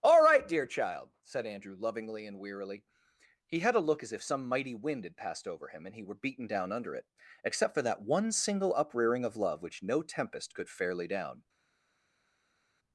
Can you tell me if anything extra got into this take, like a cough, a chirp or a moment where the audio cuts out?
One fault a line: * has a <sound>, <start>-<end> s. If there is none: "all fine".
all fine